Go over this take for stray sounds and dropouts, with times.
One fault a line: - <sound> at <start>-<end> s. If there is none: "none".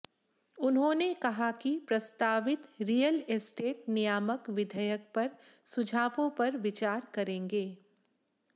none